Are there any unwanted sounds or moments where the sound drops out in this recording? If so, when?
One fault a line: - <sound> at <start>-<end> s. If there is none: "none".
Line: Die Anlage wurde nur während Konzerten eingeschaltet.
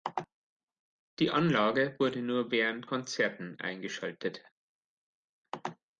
none